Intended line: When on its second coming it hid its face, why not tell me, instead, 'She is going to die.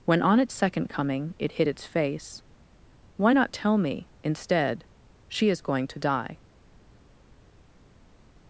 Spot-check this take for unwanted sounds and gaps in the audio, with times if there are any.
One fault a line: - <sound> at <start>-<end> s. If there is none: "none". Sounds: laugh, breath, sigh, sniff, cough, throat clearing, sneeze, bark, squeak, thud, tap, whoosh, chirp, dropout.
none